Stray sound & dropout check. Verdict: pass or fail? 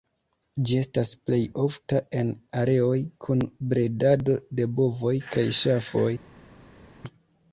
pass